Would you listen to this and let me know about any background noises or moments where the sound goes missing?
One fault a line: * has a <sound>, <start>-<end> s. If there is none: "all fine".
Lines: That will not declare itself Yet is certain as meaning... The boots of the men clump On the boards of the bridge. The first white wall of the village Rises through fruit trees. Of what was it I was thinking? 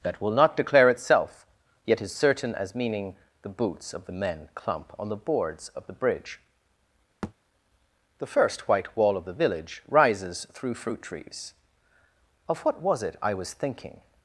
* has a thud, 7.2-7.3 s